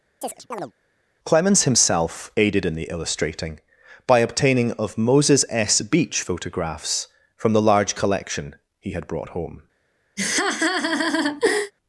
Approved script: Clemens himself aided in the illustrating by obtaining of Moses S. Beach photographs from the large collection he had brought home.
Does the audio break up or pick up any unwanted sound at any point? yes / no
yes